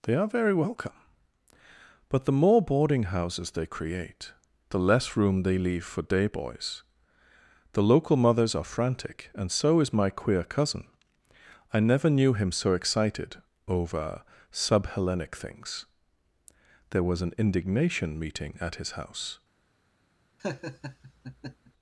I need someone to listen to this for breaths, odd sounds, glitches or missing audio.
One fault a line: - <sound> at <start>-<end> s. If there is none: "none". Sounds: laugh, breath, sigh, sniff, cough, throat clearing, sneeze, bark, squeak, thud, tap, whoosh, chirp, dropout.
- laugh at 20.4-21.7 s